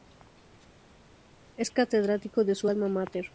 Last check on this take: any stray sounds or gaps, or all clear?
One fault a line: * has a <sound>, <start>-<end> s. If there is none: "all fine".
all fine